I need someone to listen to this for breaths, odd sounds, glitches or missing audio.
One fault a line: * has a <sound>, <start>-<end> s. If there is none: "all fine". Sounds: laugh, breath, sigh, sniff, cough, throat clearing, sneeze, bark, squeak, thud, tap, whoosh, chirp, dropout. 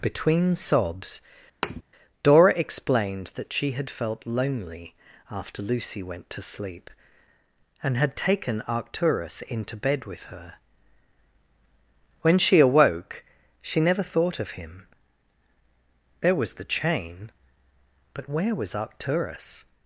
* has a thud, 1.6-1.8 s